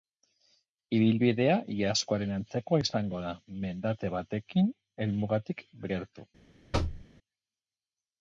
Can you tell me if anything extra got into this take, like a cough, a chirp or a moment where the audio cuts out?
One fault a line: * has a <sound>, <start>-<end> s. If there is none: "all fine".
* has a thud, 6.7-7.1 s